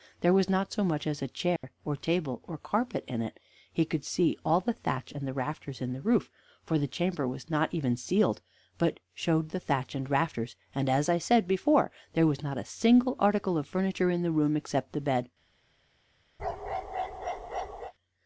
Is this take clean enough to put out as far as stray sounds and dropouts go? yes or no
no